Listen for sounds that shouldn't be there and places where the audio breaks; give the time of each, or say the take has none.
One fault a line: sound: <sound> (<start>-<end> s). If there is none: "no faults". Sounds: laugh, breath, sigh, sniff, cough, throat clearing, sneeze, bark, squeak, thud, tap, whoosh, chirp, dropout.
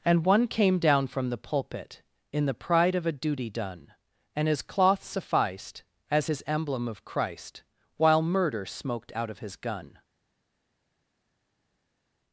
no faults